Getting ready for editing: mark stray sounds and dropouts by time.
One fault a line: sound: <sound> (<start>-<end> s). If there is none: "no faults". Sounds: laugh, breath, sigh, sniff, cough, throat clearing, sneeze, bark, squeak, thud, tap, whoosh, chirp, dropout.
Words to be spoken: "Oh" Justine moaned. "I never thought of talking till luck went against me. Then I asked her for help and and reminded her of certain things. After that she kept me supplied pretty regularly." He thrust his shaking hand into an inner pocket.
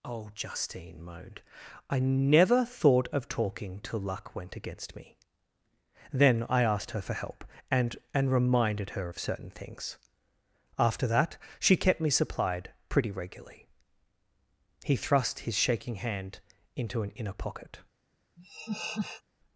sound: laugh (18.4-19.2 s)